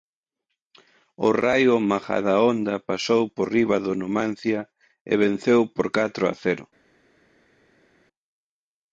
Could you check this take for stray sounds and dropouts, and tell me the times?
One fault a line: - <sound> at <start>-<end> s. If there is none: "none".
none